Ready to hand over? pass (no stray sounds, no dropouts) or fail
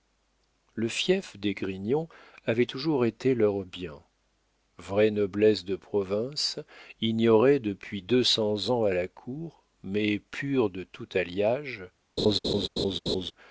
fail